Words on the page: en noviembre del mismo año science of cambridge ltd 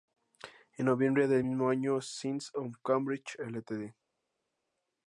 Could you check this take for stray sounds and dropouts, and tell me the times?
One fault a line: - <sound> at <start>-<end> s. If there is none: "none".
none